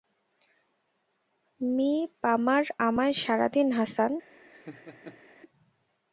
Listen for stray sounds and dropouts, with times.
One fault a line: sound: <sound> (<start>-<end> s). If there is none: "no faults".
sound: laugh (4.5-5.2 s)